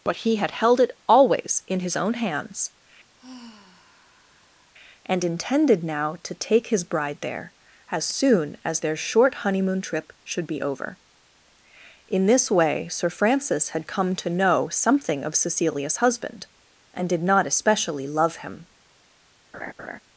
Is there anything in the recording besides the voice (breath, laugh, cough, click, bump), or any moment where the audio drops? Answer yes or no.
yes